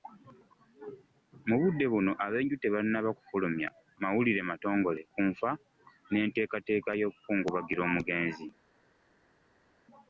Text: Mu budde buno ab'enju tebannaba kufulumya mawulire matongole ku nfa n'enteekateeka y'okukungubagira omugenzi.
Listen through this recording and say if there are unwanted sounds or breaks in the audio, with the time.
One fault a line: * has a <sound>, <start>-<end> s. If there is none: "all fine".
all fine